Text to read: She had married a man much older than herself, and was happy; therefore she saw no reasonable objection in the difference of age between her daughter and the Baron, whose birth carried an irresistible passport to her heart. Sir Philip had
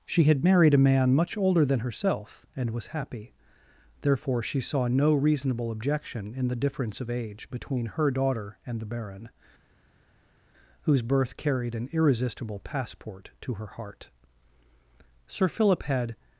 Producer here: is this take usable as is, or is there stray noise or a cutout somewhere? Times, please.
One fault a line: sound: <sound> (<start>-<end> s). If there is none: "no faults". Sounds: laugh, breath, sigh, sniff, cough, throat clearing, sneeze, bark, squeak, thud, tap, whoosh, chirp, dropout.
no faults